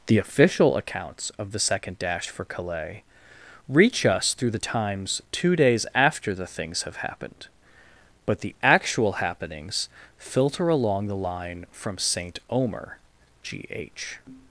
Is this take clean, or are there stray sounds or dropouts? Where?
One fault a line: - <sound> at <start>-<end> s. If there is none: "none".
none